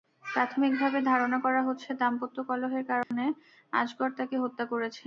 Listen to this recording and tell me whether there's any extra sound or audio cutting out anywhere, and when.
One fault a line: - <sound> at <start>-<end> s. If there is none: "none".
- dropout at 3.0-3.1 s